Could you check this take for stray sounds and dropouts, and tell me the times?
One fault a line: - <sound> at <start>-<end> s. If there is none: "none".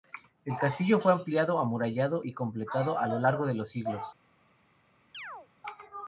- chirp at 5.1-5.5 s